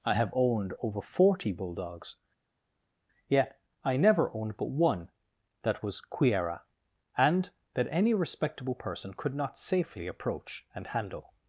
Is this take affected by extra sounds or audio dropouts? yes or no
no